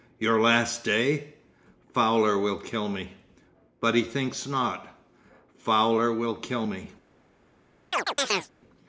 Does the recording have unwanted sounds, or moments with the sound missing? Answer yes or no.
yes